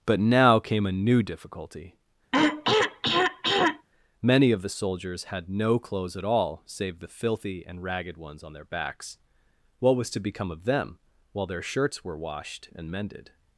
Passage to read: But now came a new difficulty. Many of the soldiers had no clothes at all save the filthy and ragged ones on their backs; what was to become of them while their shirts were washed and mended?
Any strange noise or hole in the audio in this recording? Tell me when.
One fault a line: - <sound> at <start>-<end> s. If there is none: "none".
- throat clearing at 2.3-3.9 s